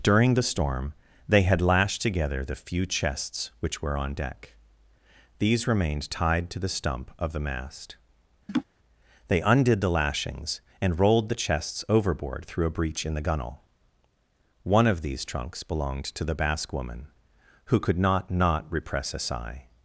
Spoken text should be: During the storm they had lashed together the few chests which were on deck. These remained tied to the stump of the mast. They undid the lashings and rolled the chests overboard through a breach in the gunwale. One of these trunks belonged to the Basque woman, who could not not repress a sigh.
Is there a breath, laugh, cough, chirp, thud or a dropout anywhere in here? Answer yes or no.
yes